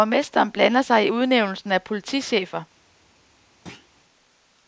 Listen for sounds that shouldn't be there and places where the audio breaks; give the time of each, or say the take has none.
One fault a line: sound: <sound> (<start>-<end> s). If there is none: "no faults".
sound: thud (3.7-3.9 s)